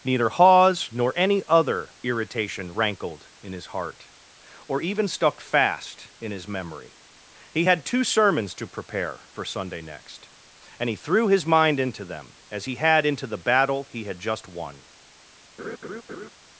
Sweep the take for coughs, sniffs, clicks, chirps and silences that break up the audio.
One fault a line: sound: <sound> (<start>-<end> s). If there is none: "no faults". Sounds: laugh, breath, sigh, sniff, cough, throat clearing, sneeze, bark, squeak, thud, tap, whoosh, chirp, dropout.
sound: laugh (15.6-16.3 s)